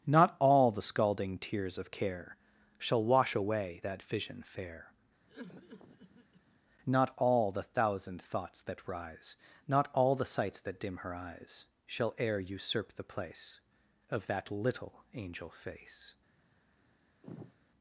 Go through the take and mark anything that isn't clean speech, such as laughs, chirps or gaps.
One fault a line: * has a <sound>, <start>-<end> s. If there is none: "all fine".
* has a cough, 5.3-6.6 s
* has a sigh, 17.2-17.5 s